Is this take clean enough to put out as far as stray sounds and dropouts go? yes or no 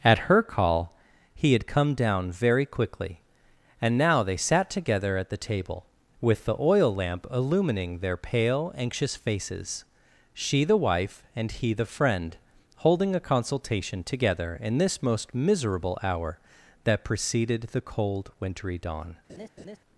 no